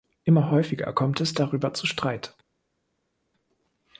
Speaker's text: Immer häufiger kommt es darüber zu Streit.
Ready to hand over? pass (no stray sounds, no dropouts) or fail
pass